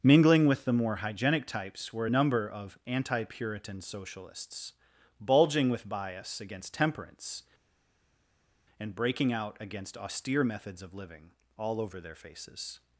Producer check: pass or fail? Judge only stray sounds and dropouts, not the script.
pass